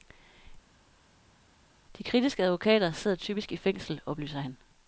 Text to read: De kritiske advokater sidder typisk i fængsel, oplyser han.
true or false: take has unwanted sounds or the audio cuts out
false